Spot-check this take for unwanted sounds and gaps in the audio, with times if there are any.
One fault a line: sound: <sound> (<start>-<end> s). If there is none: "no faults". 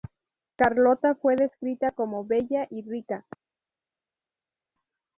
no faults